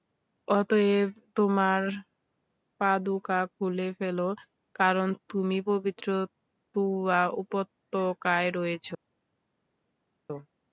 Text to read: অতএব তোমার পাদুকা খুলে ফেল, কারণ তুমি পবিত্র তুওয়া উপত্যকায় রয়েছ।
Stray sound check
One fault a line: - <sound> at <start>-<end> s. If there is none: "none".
none